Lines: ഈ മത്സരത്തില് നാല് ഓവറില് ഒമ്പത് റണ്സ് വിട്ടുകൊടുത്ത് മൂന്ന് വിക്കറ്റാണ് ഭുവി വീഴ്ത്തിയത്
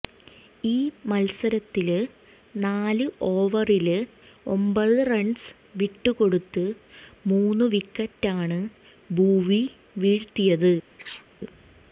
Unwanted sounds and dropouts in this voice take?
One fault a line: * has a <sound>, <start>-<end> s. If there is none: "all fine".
* has a sneeze, 11.0-11.2 s